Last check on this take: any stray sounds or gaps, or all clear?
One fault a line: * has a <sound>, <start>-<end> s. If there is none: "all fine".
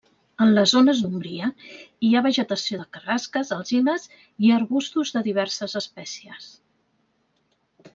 all fine